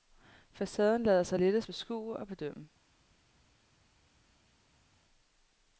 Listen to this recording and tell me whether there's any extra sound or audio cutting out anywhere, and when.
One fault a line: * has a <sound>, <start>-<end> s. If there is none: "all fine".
all fine